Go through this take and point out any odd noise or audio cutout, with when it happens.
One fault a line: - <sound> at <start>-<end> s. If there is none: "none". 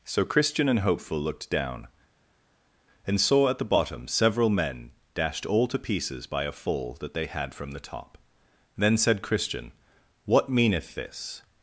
none